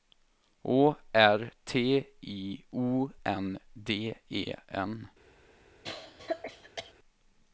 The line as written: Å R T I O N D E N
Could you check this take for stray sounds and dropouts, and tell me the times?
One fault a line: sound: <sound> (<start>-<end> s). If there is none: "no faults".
sound: cough (5.8-6.9 s)